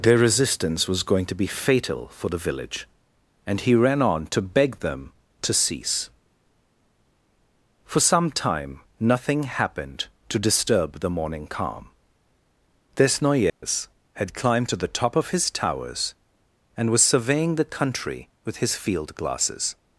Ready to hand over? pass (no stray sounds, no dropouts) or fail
fail